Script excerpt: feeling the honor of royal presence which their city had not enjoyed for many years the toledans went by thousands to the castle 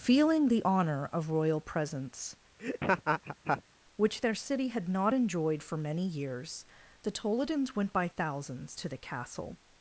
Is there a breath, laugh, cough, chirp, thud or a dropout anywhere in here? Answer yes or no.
yes